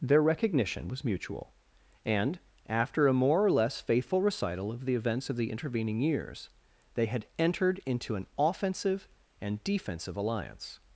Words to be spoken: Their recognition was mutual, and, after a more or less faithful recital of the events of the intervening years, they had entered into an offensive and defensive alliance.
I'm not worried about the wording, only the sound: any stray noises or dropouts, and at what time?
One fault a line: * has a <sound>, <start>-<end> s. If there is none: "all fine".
all fine